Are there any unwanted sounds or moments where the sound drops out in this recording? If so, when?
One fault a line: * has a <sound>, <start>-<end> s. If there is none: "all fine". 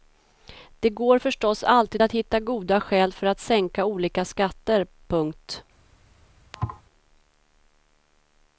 * has a thud, 6.5-6.8 s